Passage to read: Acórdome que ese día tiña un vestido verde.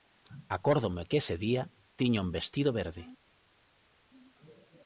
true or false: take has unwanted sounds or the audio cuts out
false